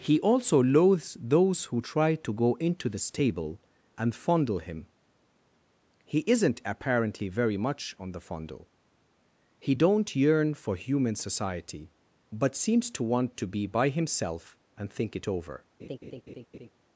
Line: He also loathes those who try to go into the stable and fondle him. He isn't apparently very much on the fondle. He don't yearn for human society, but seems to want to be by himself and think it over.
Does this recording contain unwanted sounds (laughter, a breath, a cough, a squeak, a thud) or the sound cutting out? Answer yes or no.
yes